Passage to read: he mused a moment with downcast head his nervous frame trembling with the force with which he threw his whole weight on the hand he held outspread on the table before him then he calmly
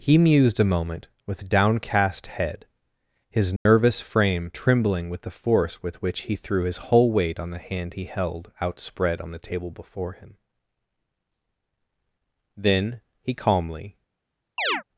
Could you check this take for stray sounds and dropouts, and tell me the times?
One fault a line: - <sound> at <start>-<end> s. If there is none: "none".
- dropout at 3.6-3.7 s
- chirp at 14.6-14.8 s